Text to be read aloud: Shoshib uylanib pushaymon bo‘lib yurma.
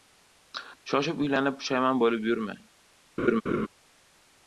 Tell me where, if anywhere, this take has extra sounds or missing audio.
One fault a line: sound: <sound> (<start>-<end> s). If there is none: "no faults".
sound: laugh (3.2-3.7 s)